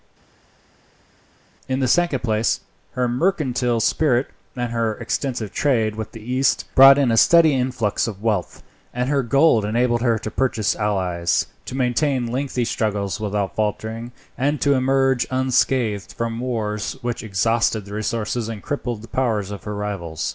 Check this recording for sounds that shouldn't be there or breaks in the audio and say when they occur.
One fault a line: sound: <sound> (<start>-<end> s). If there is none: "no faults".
no faults